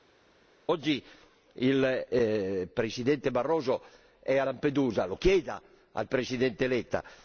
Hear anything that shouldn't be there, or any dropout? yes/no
no